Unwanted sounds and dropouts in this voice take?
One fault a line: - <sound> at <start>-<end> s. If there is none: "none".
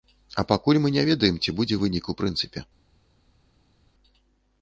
none